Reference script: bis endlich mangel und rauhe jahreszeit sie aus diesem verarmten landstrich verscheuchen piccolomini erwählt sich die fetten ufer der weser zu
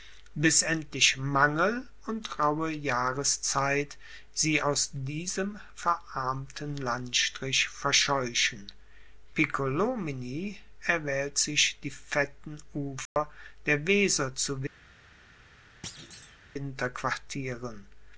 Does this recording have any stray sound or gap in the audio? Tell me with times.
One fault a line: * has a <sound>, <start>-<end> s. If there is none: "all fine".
* has a dropout, 13.1-13.2 s
* has a thud, 15.8-16.4 s